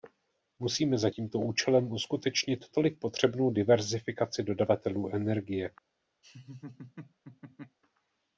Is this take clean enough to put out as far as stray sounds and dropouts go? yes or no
no